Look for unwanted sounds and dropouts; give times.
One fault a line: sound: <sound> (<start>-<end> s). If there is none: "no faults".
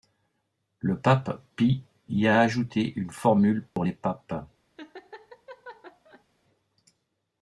sound: dropout (3.7-3.8 s)
sound: laugh (4.8-6.2 s)